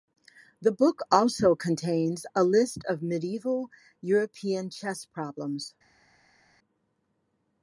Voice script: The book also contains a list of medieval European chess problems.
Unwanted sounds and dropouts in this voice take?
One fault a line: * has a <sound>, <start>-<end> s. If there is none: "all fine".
all fine